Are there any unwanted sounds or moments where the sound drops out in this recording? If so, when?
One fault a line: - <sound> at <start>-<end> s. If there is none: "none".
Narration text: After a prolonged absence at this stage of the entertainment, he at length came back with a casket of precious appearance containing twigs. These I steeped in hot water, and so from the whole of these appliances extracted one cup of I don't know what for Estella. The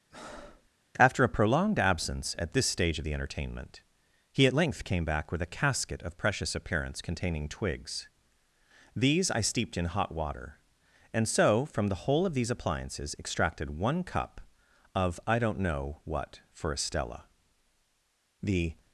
- breath at 0.1-0.7 s